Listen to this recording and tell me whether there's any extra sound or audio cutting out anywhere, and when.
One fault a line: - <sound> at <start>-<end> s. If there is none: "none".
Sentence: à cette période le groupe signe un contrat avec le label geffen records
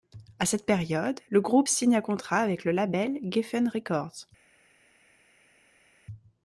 none